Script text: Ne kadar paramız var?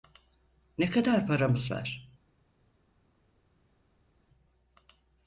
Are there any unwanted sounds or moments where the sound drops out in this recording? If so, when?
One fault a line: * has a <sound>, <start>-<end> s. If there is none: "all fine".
all fine